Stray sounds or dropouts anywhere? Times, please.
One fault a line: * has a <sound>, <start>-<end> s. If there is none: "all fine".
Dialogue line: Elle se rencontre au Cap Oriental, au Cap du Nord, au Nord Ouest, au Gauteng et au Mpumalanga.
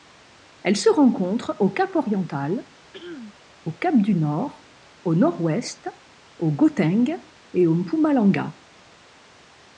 * has a throat clearing, 2.9-3.3 s